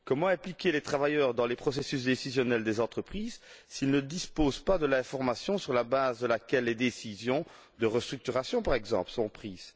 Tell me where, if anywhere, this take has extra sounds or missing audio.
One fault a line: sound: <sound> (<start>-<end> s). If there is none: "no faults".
no faults